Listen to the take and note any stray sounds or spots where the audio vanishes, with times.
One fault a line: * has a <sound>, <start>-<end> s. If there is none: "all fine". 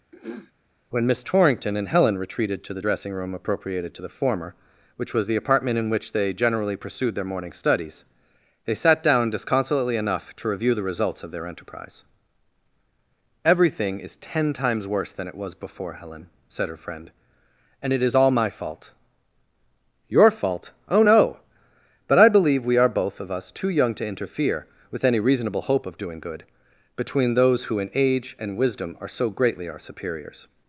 * has a throat clearing, 0.1-0.5 s